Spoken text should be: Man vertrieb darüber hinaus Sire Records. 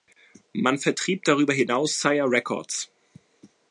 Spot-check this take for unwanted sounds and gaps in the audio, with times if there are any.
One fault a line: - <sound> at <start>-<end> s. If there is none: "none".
none